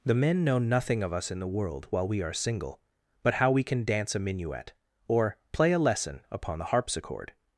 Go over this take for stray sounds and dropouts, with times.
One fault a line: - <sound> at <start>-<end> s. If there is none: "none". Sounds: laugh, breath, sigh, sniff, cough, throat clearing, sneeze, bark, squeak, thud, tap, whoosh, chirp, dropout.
none